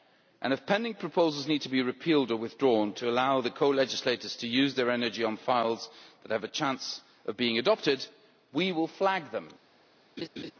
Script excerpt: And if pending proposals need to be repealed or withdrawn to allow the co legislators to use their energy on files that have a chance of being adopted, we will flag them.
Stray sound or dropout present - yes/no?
yes